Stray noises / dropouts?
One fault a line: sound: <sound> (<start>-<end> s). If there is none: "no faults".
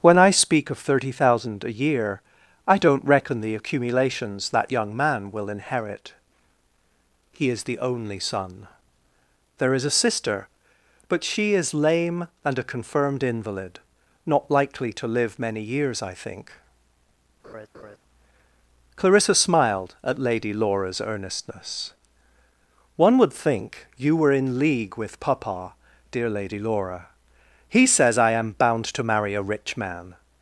sound: laugh (17.4-18.0 s)